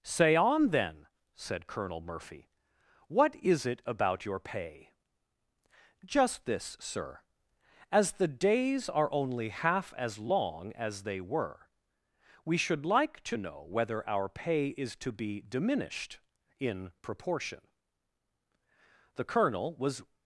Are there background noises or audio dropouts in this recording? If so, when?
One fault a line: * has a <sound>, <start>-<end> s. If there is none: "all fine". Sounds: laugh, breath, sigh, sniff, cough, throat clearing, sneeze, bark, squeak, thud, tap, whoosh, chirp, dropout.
all fine